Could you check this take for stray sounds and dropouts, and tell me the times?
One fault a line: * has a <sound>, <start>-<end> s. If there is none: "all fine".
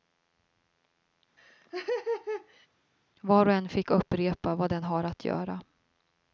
* has a laugh, 1.4-2.7 s